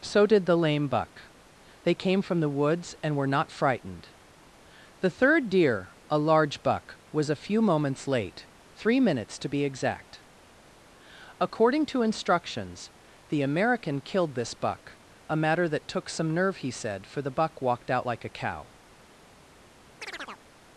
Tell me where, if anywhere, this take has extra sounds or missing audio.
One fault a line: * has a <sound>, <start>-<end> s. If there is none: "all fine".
* has a chirp, 20.0-20.5 s